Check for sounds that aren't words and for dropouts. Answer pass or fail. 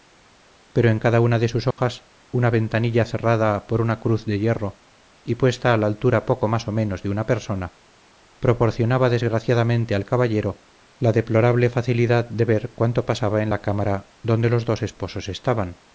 fail